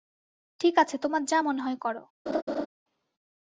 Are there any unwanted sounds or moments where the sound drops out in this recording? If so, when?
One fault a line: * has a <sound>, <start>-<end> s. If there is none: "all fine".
* has a laugh, 2.3-2.7 s